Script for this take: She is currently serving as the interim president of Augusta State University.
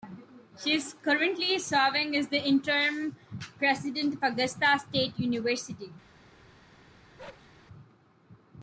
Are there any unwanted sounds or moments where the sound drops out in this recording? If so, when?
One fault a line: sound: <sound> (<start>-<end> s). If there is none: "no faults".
sound: bark (7.2-7.5 s)